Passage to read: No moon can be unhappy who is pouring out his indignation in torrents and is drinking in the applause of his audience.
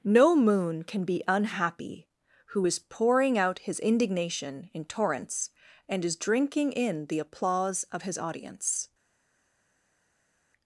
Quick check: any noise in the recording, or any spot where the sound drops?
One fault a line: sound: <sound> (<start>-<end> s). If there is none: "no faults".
no faults